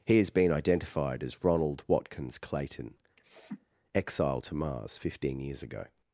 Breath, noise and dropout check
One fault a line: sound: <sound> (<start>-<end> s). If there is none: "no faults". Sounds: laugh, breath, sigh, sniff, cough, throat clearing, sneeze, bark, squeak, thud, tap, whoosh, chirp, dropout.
sound: sniff (3.2-3.7 s)